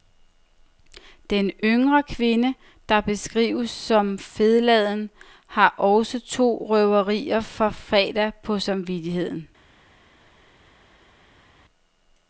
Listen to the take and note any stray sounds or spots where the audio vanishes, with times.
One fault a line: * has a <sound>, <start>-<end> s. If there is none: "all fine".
all fine